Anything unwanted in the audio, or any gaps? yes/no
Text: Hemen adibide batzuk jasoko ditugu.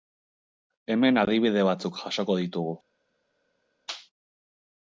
no